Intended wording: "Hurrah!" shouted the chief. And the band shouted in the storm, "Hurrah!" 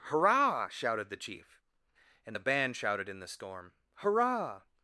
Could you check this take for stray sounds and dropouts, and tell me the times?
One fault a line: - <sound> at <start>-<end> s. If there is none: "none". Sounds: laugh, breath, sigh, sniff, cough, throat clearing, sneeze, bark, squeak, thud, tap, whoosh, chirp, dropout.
none